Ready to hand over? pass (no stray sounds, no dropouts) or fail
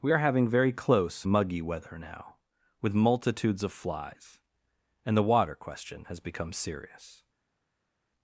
pass